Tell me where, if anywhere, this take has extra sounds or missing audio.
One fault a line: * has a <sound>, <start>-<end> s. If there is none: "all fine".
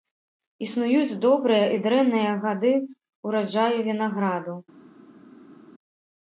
all fine